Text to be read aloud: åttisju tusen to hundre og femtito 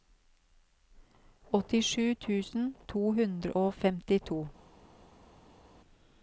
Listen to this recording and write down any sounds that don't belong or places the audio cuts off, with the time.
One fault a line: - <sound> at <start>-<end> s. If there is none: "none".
none